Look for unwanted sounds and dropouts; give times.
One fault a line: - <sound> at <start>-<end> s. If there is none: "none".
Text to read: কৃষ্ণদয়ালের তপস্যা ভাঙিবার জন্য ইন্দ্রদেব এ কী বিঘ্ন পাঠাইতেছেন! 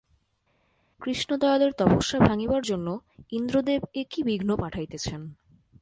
none